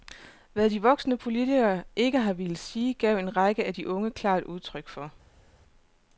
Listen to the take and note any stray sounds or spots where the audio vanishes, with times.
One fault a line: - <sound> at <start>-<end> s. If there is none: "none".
none